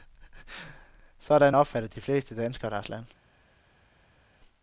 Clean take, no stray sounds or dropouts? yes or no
yes